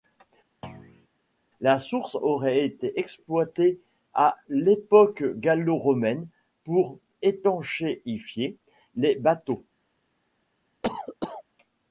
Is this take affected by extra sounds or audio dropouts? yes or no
yes